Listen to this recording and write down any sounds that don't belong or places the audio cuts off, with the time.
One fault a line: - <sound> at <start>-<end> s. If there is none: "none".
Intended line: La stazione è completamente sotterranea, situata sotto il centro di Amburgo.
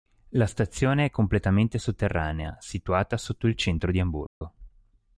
- dropout at 4.3-4.4 s